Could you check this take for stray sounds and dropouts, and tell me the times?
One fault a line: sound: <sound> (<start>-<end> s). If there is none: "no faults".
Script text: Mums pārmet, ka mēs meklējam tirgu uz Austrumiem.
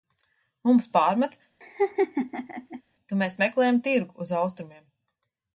sound: laugh (1.6-2.8 s)